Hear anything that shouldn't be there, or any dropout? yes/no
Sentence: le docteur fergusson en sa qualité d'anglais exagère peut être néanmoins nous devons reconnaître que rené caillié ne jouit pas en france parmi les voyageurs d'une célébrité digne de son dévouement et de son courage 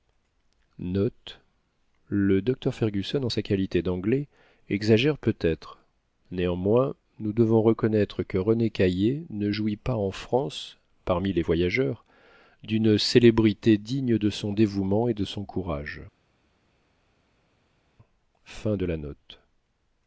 no